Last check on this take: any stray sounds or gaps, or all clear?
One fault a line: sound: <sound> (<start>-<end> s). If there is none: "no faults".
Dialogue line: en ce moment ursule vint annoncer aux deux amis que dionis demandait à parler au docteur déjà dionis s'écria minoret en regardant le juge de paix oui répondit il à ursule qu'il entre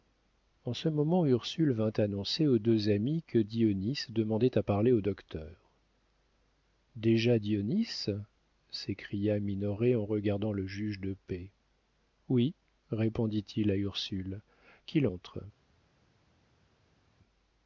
no faults